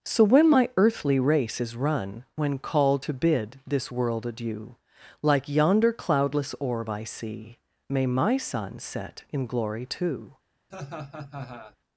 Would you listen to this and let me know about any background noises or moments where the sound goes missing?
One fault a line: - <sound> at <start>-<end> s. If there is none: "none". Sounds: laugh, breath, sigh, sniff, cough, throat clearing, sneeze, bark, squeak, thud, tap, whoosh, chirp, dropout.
- laugh at 10.7-11.8 s